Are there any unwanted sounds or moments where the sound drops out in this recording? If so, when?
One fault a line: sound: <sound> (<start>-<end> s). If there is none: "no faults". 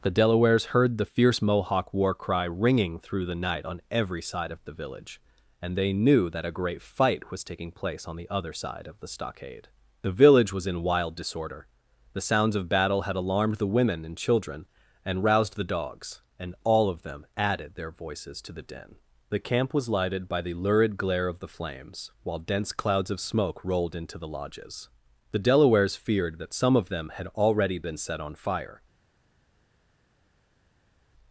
no faults